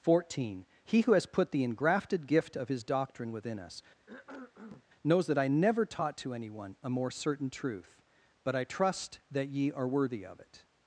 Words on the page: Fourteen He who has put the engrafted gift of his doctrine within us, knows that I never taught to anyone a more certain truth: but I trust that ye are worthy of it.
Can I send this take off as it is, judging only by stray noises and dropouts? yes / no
no